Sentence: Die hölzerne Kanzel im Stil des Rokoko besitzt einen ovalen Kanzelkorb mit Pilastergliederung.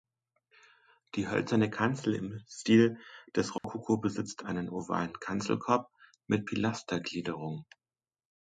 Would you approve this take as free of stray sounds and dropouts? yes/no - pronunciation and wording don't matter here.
no